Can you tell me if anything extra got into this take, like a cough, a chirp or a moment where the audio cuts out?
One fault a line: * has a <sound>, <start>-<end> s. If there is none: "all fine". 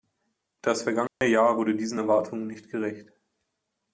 * has a dropout, 1.1-1.2 s